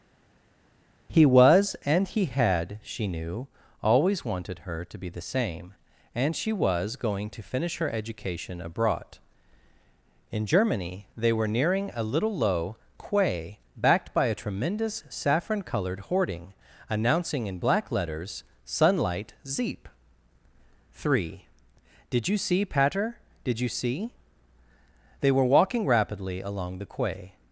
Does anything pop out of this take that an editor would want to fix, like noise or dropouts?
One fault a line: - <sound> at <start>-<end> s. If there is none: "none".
none